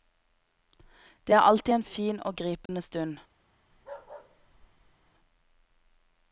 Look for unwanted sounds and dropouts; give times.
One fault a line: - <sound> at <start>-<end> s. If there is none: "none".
- dropout at 2.7-2.7 s
- bark at 3.7-5.1 s